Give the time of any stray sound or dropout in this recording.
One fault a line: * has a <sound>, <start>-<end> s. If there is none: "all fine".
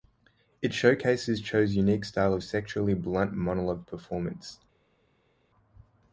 all fine